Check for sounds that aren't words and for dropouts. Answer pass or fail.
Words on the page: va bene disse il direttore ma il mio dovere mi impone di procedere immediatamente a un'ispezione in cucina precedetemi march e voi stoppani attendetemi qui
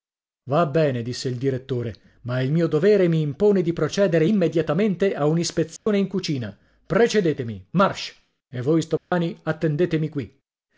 fail